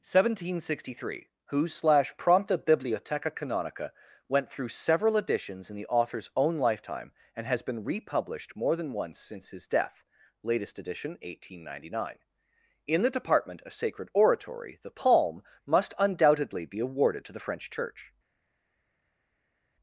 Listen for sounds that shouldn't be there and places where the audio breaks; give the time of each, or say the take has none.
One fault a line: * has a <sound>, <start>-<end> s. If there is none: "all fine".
all fine